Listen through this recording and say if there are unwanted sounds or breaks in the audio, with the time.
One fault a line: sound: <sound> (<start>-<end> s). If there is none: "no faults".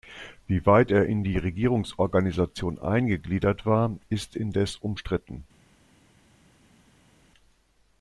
no faults